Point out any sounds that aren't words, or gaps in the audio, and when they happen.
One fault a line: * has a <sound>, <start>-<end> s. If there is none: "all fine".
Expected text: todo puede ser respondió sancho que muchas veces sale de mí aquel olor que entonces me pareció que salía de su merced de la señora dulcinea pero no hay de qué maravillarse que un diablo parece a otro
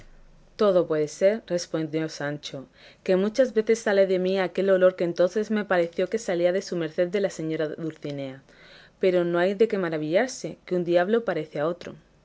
all fine